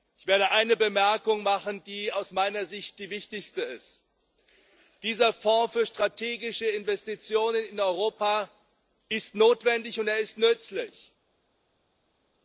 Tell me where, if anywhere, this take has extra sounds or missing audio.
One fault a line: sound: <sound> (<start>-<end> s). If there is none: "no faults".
no faults